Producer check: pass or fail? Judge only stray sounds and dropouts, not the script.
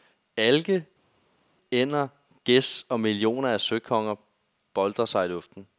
pass